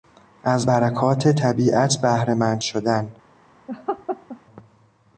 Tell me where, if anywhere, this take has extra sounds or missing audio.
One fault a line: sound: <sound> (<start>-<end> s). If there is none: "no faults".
sound: laugh (3.7-4.4 s)